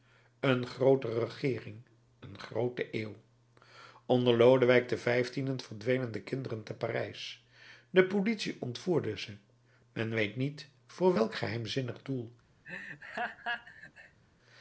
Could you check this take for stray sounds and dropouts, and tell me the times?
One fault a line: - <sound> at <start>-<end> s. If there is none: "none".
- laugh at 12.6-14.2 s